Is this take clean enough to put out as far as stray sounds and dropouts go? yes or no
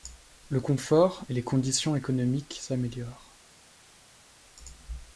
yes